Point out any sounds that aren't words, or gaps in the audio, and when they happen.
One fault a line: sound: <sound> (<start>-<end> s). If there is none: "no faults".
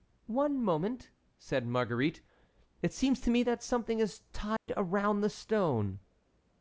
sound: dropout (4.6-4.7 s)